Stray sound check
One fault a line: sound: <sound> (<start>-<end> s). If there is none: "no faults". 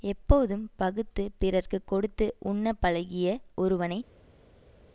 no faults